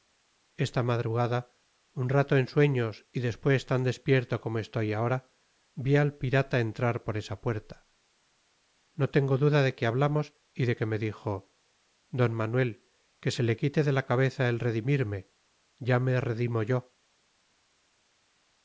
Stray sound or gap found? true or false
false